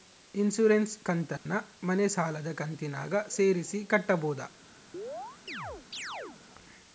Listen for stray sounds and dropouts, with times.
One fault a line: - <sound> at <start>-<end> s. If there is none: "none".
- dropout at 1.4-1.5 s
- chirp at 4.9-6.4 s